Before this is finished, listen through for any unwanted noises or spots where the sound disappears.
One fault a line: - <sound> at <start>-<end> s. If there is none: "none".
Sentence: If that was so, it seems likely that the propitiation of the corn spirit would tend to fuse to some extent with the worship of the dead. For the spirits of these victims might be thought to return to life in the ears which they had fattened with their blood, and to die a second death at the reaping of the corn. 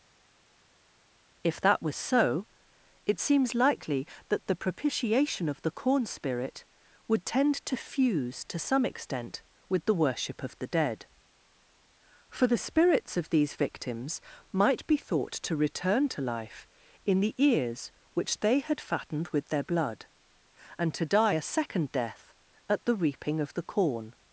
none